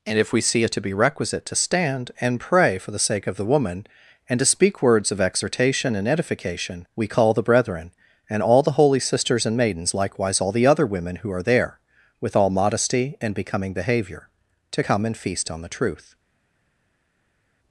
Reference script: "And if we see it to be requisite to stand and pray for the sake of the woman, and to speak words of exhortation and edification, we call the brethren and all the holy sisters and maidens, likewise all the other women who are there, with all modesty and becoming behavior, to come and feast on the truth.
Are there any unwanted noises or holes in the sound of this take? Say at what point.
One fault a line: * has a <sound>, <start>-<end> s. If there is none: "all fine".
all fine